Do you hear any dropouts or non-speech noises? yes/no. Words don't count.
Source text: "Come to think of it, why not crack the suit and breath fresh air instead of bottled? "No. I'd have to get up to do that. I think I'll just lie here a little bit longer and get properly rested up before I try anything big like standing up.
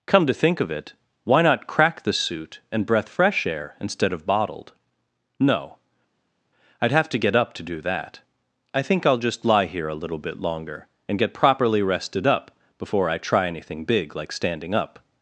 no